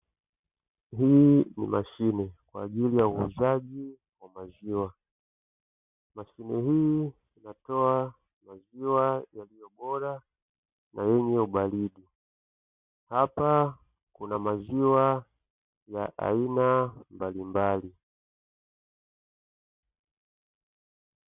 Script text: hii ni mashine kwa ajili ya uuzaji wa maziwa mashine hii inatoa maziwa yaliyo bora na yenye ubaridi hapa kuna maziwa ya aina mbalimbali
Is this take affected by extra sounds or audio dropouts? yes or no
no